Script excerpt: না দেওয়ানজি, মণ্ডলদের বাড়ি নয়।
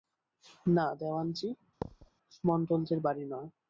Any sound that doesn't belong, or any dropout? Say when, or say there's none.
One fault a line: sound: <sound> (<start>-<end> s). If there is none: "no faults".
sound: thud (1.8-2.1 s)